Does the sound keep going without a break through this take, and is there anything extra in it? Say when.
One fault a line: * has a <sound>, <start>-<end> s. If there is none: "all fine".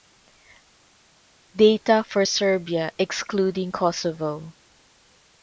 all fine